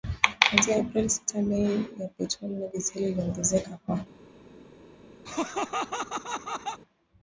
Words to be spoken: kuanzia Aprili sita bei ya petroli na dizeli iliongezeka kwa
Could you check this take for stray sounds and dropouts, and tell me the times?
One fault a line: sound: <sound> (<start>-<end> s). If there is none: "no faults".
sound: laugh (5.3-6.8 s)